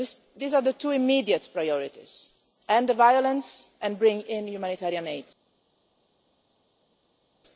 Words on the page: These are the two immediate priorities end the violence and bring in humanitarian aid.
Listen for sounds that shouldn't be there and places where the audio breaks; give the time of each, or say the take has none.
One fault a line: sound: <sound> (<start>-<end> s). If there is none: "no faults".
no faults